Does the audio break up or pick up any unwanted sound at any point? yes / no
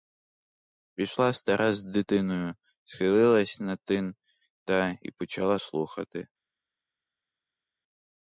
no